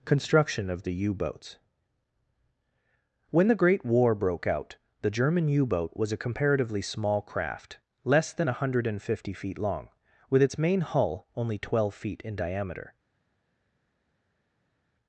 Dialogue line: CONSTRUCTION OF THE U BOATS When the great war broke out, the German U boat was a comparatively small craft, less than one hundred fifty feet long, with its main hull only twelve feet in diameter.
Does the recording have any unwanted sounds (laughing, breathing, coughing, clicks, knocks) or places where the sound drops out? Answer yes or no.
no